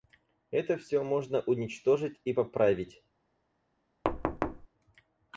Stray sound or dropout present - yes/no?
yes